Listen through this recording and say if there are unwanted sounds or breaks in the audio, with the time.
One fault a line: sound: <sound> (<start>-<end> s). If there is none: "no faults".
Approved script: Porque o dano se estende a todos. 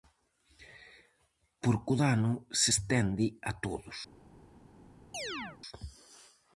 sound: chirp (5.1-5.6 s)